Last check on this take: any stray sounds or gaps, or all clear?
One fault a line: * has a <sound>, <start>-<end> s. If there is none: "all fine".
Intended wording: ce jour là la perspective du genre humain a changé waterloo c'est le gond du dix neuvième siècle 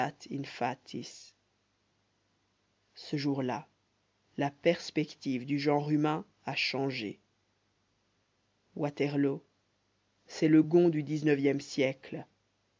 all fine